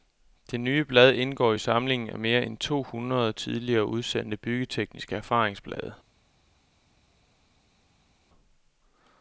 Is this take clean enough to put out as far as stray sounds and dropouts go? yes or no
yes